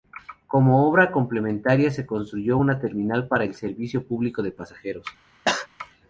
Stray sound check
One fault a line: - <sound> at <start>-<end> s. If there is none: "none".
- cough at 5.4-5.7 s